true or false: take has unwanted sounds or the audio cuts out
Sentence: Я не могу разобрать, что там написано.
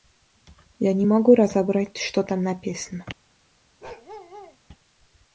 true